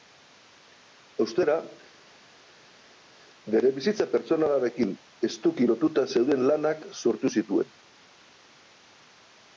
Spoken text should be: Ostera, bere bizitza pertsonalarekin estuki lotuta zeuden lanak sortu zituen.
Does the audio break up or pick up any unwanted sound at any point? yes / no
no